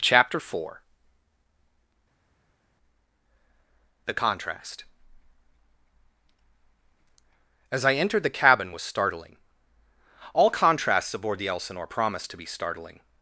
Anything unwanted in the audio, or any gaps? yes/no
no